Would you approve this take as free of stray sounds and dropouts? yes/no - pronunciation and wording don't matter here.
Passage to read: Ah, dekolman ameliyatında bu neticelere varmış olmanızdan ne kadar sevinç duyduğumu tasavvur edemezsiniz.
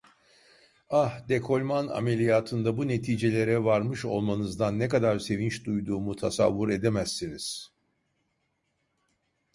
yes